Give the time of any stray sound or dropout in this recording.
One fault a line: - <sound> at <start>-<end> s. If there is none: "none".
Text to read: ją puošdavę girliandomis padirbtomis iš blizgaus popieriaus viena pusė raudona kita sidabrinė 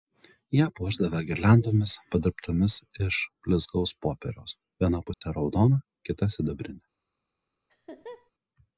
- dropout at 5.1-5.2 s
- laugh at 7.7-8.3 s